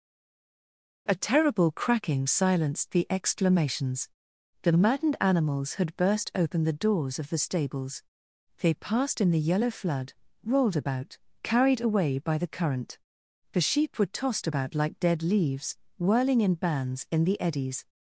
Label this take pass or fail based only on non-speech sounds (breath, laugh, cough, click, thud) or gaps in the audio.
pass